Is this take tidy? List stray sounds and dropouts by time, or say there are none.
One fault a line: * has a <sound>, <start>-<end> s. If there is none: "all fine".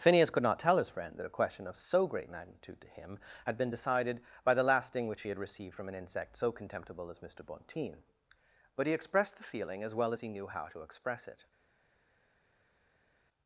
all fine